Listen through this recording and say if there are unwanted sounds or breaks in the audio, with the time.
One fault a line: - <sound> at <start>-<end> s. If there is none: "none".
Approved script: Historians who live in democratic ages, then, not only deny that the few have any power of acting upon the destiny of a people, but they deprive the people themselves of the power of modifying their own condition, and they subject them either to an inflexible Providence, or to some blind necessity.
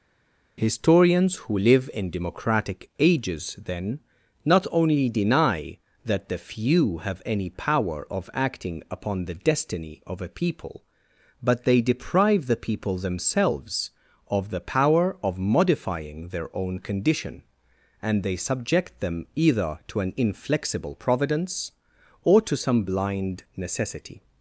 none